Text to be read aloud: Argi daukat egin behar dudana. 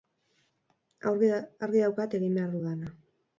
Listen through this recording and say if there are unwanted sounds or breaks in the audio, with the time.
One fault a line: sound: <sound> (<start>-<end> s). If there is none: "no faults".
no faults